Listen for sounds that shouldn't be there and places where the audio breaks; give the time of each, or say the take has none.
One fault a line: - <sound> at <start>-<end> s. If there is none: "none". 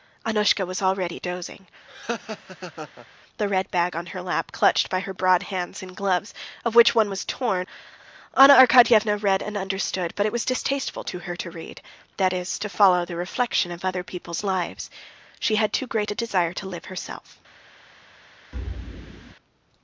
- laugh at 1.9-3.1 s
- thud at 18.5-19.3 s